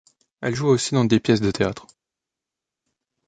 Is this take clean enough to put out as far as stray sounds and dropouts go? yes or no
yes